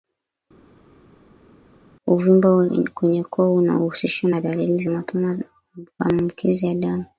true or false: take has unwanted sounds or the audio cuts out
false